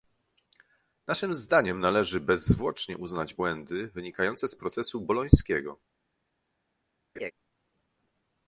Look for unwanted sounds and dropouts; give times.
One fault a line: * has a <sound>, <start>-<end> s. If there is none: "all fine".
* has a laugh, 7.2-7.3 s